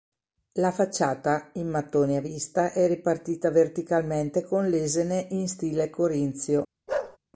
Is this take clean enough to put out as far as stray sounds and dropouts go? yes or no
no